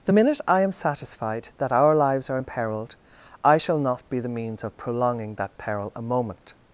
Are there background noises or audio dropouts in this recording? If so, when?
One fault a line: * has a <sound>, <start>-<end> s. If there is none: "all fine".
all fine